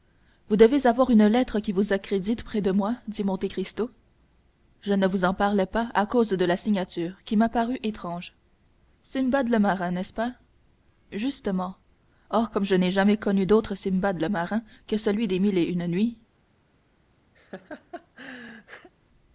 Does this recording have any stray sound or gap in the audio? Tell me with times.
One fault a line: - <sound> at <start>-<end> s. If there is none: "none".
- laugh at 17.4-18.9 s